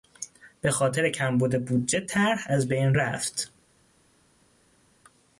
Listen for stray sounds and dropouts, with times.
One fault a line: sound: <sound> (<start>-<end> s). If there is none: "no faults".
no faults